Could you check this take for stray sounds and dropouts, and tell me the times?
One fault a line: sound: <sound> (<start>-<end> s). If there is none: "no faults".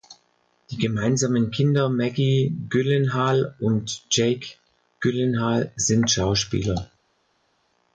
no faults